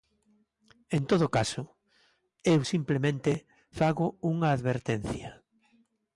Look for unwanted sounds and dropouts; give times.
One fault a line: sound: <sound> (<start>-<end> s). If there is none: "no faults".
no faults